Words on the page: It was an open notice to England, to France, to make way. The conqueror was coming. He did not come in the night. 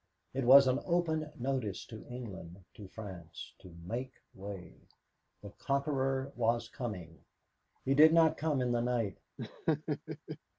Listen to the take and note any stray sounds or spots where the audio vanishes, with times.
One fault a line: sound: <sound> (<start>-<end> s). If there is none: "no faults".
sound: laugh (9.4-10.4 s)